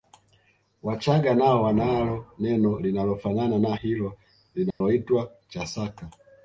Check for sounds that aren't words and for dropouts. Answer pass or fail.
fail